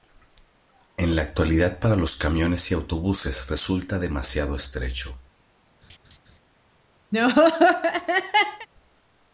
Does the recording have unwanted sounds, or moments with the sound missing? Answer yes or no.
yes